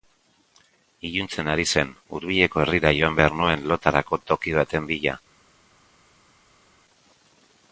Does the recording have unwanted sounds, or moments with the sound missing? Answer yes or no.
no